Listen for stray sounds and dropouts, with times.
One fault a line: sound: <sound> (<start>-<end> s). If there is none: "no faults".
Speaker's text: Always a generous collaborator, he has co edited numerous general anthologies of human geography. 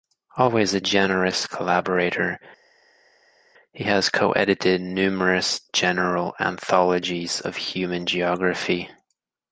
no faults